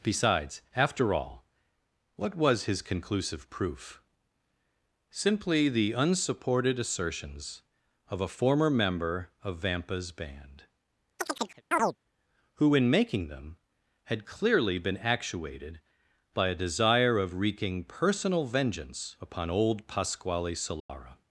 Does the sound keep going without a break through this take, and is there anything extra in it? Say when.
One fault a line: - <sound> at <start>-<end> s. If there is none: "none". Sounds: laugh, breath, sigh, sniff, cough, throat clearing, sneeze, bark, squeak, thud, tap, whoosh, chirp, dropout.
- chirp at 11.2-12.0 s
- dropout at 20.8-20.9 s